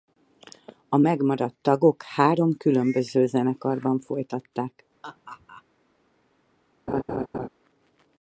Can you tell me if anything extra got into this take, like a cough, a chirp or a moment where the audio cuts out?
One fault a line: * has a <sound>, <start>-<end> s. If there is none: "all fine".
* has a laugh, 5.0-5.6 s
* has a laugh, 6.9-7.5 s